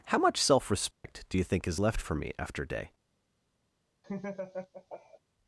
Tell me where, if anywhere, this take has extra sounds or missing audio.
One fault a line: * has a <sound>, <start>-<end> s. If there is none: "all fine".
* has a dropout, 0.9-1.0 s
* has a laugh, 4.0-5.2 s